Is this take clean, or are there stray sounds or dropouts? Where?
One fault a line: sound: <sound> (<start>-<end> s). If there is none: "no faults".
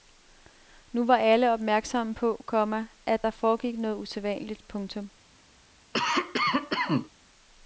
sound: cough (5.9-7.1 s)